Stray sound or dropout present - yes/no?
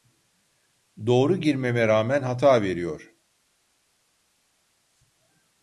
no